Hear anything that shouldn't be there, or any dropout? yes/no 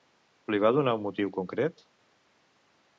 no